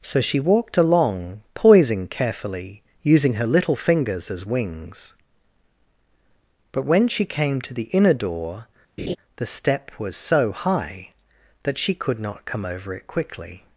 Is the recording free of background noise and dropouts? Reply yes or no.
no